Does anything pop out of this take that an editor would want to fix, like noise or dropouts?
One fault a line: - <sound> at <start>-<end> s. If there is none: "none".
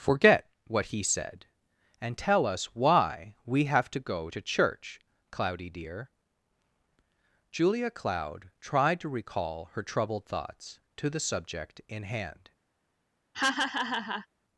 - laugh at 13.3-14.3 s